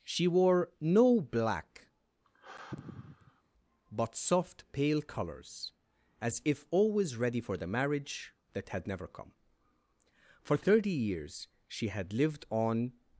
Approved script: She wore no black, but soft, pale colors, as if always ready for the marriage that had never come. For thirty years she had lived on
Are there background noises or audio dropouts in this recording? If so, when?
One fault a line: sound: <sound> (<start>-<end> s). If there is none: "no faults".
sound: sigh (2.2-3.4 s)